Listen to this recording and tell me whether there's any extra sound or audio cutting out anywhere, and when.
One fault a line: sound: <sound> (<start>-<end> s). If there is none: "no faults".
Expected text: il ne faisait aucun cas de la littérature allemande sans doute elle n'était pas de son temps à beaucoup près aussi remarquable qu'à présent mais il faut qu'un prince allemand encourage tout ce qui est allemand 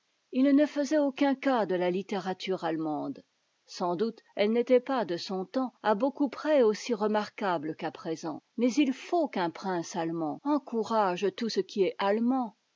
no faults